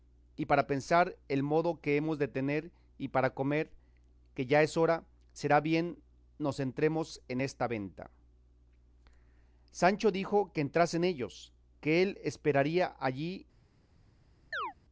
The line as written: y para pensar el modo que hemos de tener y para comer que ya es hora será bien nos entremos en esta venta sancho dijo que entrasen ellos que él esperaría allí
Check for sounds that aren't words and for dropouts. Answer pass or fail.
fail